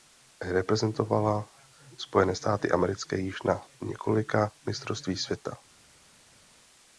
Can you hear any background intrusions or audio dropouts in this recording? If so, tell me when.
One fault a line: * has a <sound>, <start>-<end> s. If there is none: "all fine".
all fine